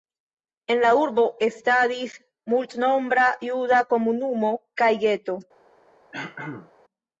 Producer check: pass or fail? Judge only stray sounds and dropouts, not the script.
fail